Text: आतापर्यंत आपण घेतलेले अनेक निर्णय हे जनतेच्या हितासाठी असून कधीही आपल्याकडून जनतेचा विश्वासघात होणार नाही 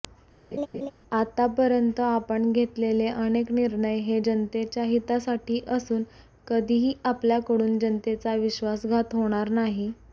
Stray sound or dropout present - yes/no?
yes